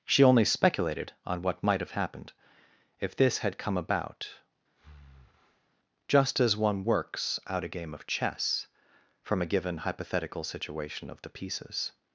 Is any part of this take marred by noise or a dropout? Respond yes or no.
yes